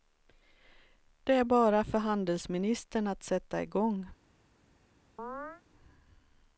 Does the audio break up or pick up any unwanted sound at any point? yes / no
yes